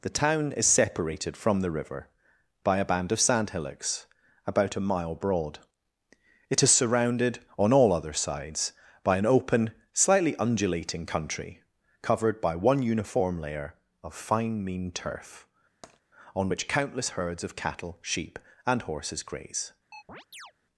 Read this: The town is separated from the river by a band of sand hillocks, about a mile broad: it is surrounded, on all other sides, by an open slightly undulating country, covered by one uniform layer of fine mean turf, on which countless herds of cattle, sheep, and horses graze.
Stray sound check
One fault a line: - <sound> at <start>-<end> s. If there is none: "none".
- tap at 15.8-16.0 s
- chirp at 19.9-20.5 s